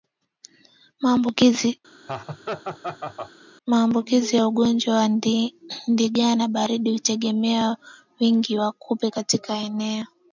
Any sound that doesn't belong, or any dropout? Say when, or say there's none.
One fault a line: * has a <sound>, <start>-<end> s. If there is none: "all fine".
* has a laugh, 2.1-3.3 s